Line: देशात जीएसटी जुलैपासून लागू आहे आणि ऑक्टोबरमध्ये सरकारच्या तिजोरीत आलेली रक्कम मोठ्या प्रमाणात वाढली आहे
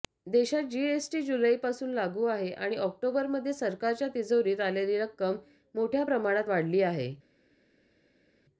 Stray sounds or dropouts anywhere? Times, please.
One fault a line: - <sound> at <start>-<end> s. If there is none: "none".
none